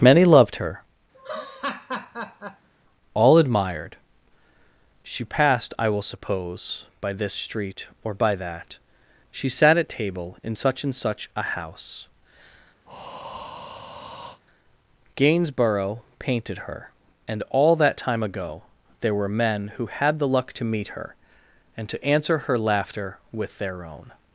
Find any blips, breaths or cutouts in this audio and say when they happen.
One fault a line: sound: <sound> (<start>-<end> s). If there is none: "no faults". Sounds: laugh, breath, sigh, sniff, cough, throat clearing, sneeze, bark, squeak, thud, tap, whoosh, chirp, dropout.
sound: laugh (1.1-2.7 s)
sound: breath (12.9-14.4 s)